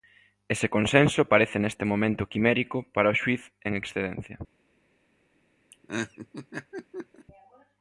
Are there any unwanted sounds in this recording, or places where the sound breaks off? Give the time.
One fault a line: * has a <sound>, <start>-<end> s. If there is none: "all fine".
* has a laugh, 5.7-7.3 s